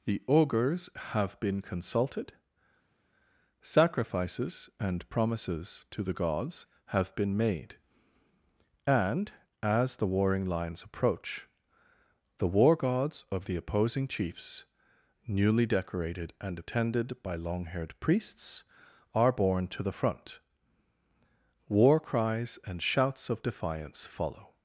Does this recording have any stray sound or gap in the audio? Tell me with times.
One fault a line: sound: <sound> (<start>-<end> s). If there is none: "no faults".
no faults